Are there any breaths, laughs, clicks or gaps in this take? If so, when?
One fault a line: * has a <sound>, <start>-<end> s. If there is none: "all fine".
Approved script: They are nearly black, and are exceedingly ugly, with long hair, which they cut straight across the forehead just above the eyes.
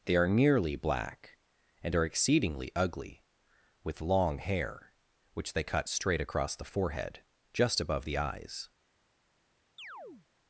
* has a chirp, 9.8-10.3 s